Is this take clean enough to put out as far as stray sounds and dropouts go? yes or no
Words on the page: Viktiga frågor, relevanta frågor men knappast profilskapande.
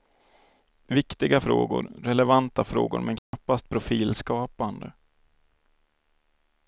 no